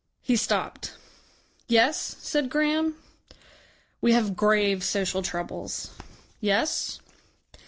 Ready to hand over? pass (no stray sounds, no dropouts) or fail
pass